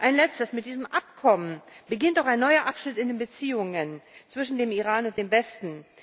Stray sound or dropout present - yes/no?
no